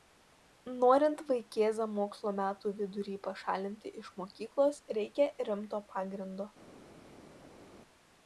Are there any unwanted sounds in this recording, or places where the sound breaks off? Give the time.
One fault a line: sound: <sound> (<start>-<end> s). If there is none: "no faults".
no faults